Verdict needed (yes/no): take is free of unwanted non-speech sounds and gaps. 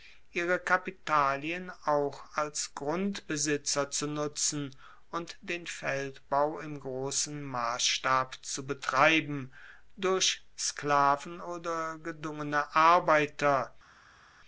yes